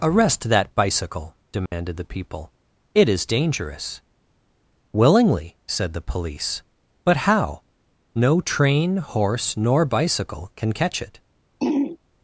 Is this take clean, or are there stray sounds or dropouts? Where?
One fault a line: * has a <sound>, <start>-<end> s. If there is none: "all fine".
* has a dropout, 1.7-1.7 s
* has a throat clearing, 11.6-12.0 s